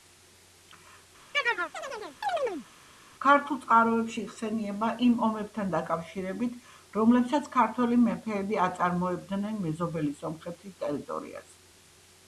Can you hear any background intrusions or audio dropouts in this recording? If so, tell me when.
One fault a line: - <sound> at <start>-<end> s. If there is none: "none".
- chirp at 1.3-2.7 s